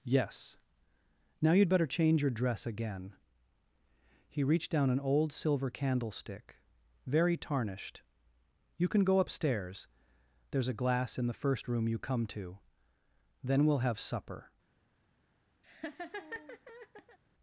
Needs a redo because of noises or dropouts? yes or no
yes